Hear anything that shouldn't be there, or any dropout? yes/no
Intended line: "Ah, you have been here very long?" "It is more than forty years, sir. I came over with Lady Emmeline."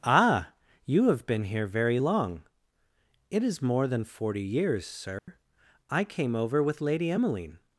yes